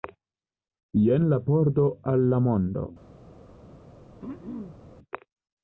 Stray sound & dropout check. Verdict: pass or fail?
fail